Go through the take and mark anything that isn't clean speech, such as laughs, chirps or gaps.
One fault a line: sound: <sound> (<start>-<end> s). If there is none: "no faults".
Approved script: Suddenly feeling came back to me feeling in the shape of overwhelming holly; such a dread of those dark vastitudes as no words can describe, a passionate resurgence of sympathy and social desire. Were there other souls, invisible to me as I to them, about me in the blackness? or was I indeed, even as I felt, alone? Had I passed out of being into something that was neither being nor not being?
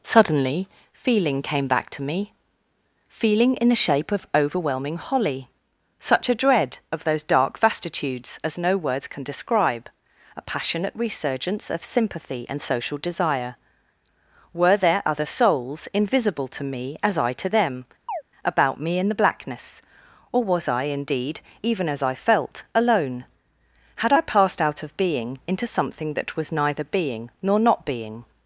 sound: chirp (18.1-18.2 s)